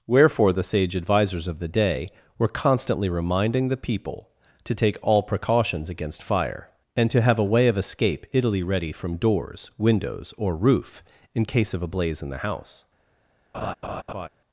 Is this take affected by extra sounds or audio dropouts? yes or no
yes